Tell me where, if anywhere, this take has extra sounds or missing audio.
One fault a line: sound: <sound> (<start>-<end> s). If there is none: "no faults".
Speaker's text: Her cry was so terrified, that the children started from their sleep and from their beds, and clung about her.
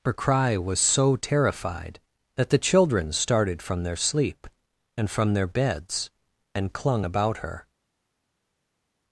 no faults